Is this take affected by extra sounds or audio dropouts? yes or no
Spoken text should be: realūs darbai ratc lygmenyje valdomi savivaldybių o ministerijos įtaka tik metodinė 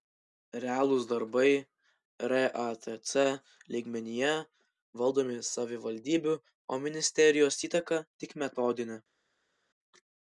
no